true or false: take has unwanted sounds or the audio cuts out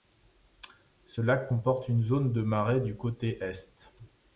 false